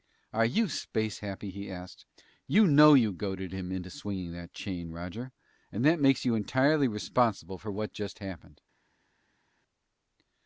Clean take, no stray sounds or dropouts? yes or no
yes